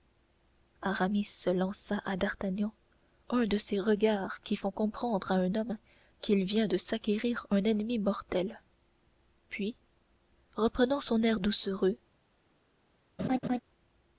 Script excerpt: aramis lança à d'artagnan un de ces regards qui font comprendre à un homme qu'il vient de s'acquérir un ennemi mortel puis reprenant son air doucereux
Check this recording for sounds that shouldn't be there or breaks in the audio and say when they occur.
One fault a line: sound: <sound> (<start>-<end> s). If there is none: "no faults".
sound: laugh (13.2-13.6 s)